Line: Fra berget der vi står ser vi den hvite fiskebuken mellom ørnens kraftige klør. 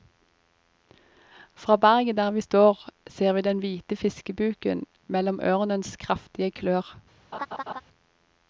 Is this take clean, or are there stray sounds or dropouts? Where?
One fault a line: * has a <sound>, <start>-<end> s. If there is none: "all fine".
* has a laugh, 7.3-7.8 s